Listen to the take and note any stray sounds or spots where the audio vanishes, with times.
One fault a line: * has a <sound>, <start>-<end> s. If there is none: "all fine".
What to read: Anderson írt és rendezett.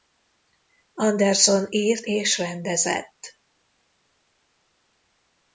all fine